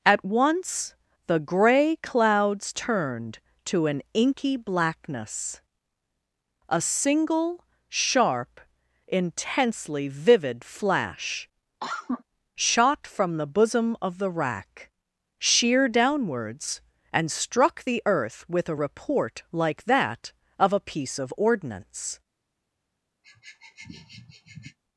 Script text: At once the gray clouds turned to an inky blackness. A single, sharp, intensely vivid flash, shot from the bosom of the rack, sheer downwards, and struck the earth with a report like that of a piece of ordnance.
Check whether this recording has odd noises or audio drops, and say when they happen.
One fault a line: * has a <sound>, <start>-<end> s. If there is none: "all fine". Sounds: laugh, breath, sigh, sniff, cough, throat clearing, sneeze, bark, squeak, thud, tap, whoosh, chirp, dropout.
* has a cough, 11.8-12.2 s
* has a sniff, 23.2-24.8 s